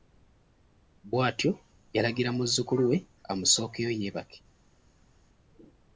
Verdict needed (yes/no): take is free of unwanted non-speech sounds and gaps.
yes